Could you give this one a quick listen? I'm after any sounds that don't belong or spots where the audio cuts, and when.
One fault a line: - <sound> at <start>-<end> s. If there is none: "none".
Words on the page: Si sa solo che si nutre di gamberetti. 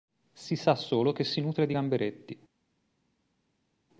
none